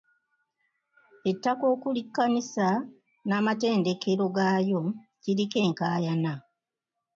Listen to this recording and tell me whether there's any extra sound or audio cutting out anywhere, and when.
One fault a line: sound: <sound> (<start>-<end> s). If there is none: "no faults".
no faults